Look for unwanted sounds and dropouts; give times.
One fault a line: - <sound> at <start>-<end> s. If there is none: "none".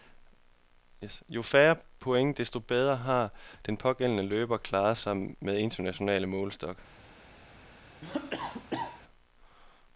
- cough at 8.0-9.0 s